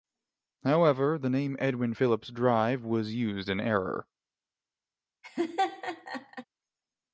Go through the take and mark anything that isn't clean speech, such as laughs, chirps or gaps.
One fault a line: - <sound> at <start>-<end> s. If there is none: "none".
- laugh at 5.2-6.4 s